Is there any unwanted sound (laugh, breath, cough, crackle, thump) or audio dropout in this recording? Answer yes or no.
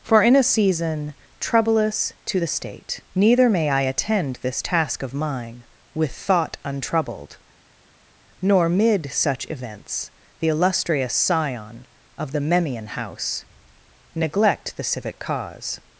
no